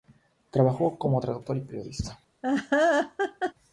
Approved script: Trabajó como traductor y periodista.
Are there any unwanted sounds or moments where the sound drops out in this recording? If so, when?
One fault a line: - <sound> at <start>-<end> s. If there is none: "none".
- laugh at 2.4-3.5 s